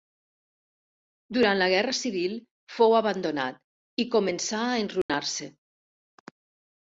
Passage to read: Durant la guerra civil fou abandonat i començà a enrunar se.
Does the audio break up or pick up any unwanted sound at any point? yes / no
yes